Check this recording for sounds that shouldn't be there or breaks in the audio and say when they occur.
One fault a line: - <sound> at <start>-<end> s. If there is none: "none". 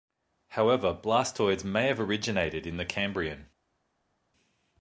none